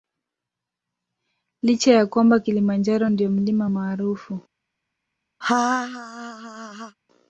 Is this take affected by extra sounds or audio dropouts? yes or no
yes